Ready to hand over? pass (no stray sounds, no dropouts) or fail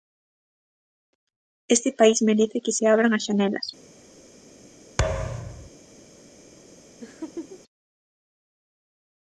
fail